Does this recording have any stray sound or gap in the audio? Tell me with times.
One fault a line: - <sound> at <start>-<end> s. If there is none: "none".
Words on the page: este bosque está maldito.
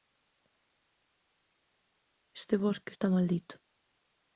none